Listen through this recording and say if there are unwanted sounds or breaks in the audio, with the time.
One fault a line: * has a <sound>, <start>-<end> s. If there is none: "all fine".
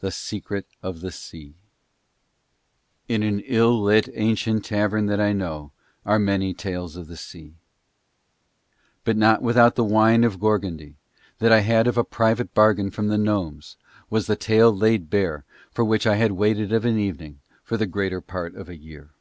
all fine